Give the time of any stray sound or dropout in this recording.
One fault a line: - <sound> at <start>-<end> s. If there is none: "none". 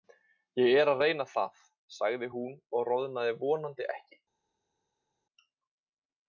none